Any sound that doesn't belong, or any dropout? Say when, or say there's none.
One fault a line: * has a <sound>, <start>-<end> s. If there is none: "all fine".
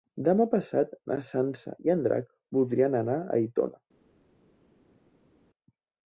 all fine